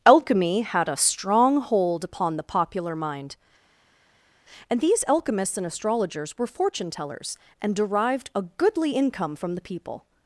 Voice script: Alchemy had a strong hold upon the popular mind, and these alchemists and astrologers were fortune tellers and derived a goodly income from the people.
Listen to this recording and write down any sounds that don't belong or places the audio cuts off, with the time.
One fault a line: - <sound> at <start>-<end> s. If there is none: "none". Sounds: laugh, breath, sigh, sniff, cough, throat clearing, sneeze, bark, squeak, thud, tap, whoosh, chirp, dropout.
none